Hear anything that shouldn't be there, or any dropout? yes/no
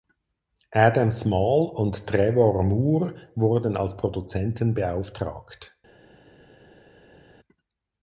no